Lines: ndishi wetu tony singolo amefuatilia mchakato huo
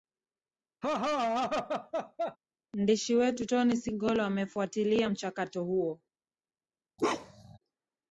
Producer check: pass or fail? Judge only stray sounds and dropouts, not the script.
fail